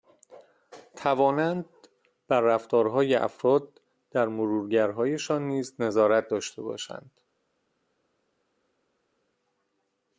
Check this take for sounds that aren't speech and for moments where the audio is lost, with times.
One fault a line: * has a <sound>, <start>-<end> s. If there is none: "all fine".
all fine